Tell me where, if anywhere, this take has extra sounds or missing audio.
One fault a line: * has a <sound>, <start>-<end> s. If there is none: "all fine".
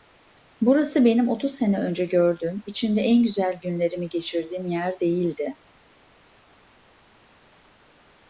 all fine